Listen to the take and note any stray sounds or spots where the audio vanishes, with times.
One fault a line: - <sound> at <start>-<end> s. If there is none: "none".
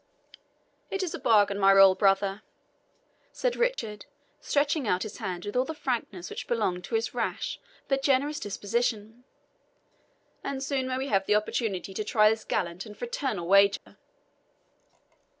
- dropout at 3.7-3.8 s
- dropout at 13.8-13.9 s